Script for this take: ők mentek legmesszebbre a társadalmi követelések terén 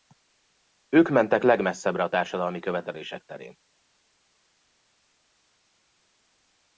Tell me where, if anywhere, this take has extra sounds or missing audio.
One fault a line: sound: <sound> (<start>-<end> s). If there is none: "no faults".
no faults